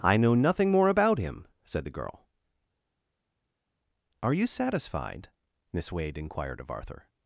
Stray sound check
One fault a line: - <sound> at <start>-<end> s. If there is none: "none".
none